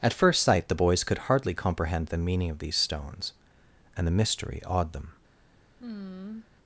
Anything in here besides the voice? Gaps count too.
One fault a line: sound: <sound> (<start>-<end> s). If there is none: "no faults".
sound: sigh (5.8-6.5 s)